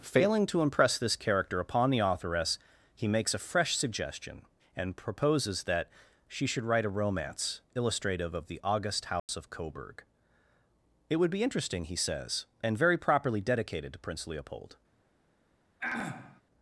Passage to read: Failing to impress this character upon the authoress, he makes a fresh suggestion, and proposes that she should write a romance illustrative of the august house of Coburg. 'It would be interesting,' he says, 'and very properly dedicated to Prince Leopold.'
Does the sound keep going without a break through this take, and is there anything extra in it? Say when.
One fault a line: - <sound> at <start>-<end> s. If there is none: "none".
- dropout at 9.2-9.3 s
- throat clearing at 15.8-16.4 s